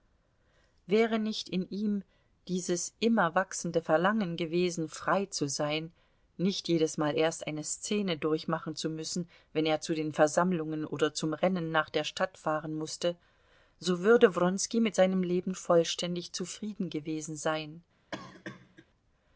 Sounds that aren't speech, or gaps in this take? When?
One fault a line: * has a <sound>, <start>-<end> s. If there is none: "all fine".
* has a cough, 18.1-18.9 s